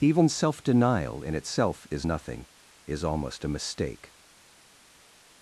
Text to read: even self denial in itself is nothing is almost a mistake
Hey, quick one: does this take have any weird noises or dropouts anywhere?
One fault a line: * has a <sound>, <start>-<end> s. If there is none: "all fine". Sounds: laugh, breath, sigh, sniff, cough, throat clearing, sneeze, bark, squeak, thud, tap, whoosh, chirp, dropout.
all fine